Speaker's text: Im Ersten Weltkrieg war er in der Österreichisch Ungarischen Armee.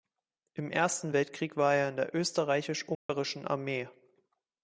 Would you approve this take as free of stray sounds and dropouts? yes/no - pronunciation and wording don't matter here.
no